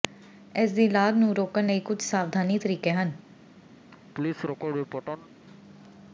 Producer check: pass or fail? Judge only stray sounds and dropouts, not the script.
fail